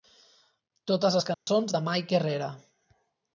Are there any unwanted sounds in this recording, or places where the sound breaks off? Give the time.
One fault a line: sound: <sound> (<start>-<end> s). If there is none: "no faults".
sound: dropout (1.3-1.5 s)